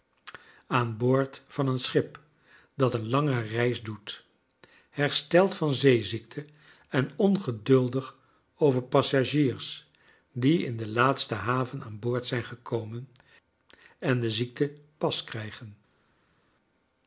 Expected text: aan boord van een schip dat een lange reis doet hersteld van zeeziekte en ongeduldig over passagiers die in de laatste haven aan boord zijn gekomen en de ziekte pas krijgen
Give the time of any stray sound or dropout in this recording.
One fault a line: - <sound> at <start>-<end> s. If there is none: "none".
none